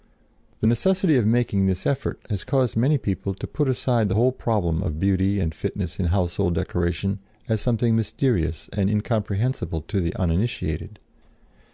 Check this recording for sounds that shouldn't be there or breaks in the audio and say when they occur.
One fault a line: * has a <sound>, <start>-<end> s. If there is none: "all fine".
all fine